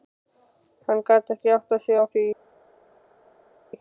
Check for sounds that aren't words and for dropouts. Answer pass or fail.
pass